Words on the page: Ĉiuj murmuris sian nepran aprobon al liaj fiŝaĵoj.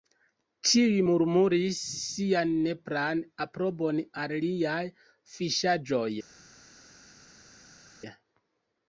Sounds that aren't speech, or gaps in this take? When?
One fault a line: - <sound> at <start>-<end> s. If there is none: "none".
none